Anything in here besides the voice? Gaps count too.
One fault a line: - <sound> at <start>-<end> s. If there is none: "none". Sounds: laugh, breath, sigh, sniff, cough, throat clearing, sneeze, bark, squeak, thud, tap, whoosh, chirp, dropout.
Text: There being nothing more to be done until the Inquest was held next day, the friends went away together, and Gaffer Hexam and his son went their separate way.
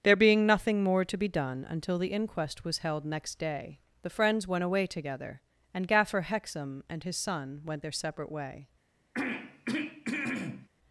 - throat clearing at 9.1-10.7 s